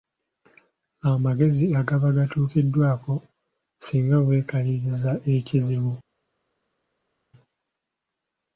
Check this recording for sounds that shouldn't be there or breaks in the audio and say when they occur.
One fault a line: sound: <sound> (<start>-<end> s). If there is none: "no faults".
no faults